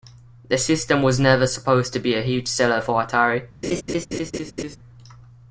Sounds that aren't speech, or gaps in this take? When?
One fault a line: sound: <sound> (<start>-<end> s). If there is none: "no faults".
sound: laugh (3.6-4.8 s)